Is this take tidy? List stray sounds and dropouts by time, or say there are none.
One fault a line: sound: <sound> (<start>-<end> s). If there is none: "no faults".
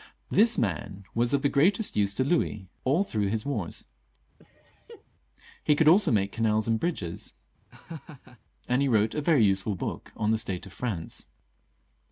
sound: laugh (4.4-5.0 s)
sound: laugh (7.7-8.4 s)